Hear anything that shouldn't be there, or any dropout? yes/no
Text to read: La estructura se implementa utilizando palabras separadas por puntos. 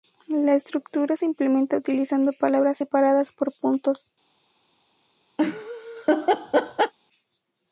yes